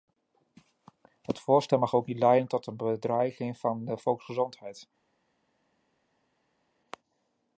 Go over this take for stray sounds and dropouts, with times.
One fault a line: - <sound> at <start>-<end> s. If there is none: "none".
none